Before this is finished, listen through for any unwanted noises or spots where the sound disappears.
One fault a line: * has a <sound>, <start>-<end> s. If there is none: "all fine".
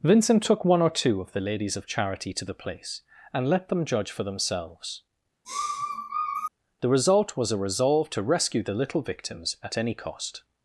* has a sniff, 5.4-6.5 s